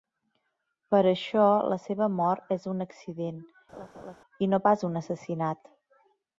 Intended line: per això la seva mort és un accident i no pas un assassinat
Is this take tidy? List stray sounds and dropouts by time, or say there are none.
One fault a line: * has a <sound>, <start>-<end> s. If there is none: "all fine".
* has a laugh, 3.7-4.2 s